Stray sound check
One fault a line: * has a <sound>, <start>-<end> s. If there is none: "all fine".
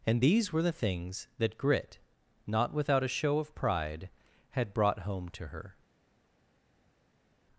all fine